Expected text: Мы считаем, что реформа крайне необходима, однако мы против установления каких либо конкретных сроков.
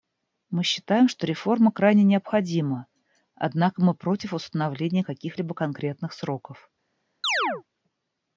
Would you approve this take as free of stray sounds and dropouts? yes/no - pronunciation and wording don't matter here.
no